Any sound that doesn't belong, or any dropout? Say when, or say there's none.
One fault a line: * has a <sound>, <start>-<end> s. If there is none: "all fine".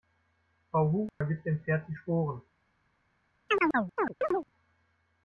* has a dropout, 1.1-1.2 s
* has a chirp, 3.5-4.5 s